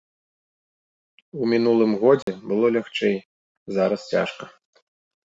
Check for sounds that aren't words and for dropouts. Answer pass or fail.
fail